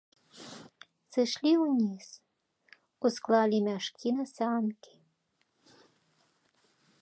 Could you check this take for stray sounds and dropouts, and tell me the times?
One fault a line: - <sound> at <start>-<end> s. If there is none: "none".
none